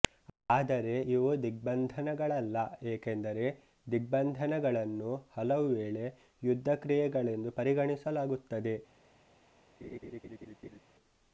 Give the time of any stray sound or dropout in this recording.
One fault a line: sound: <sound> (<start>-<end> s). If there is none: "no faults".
sound: laugh (9.8-10.8 s)